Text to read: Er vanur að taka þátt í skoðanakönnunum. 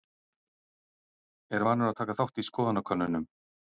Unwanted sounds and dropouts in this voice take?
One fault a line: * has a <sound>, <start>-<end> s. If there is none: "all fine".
all fine